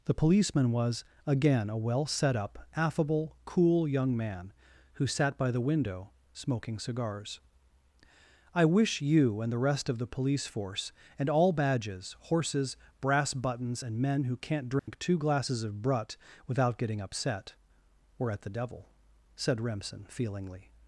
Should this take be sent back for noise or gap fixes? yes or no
yes